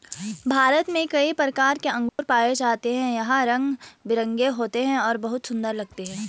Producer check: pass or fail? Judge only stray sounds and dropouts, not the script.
fail